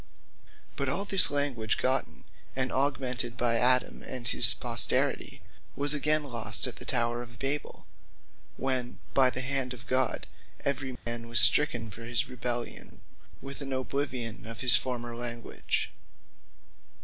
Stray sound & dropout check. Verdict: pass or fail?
fail